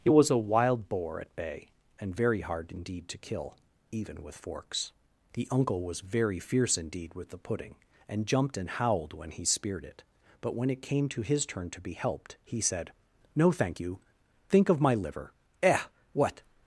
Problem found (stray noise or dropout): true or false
false